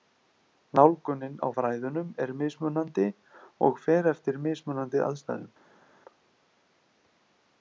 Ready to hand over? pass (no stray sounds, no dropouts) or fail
pass